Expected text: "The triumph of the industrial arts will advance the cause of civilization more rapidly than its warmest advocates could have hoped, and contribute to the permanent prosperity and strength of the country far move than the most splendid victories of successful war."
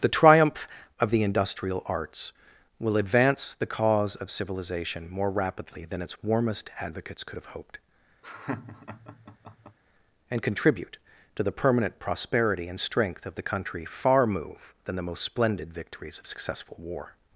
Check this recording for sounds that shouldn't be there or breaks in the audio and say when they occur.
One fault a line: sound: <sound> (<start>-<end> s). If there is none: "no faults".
sound: laugh (8.2-9.8 s)